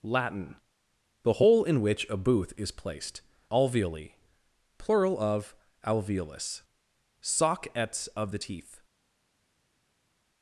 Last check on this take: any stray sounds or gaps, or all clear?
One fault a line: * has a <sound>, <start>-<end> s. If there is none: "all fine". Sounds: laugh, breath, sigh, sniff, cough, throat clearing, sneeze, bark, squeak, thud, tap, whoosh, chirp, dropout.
all fine